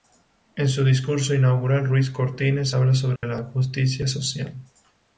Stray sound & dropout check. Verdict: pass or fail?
fail